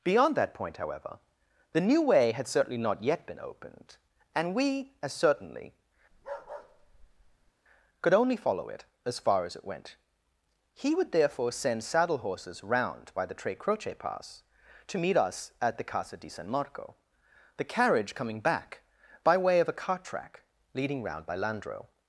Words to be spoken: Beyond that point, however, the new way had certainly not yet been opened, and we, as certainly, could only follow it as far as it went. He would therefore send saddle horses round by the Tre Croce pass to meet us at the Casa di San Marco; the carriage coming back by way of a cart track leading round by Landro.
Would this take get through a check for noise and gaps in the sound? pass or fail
fail